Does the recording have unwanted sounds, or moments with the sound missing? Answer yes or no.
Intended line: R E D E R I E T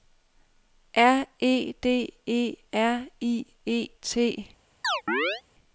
yes